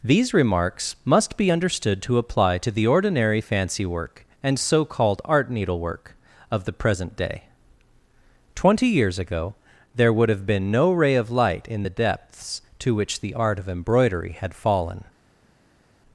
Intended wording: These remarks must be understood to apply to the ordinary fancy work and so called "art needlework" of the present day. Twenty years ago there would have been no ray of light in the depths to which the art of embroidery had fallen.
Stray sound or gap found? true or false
false